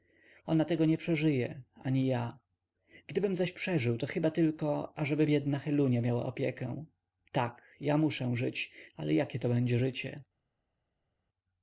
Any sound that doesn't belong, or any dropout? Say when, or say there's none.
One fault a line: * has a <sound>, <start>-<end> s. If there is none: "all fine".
all fine